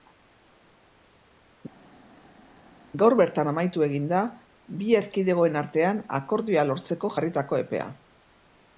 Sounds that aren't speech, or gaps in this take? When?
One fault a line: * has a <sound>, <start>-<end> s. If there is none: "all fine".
all fine